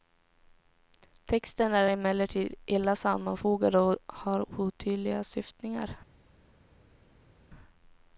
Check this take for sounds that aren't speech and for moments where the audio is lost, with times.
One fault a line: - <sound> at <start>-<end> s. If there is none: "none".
none